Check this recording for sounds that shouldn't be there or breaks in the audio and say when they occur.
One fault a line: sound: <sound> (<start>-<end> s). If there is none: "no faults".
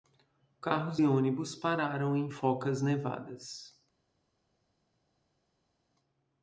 no faults